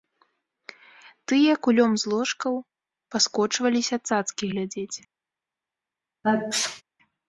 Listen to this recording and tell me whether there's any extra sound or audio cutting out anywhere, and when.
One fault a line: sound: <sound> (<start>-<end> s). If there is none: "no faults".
sound: sneeze (6.2-6.8 s)